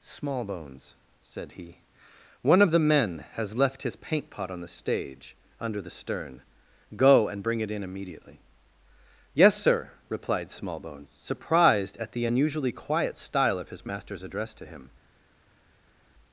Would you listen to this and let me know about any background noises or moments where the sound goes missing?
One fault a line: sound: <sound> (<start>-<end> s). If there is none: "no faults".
no faults